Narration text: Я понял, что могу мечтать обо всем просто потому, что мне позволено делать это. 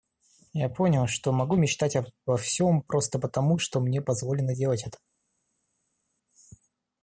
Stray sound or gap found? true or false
false